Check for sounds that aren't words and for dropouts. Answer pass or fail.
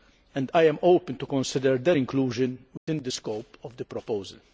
fail